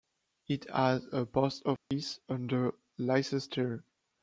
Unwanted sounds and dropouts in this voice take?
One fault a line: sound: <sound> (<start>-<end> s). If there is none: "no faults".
sound: dropout (1.8-1.9 s)